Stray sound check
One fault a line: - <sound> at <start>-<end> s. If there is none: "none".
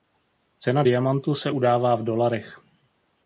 none